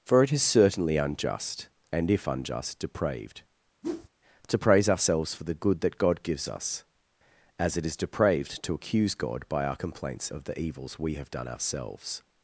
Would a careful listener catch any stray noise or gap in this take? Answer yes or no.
yes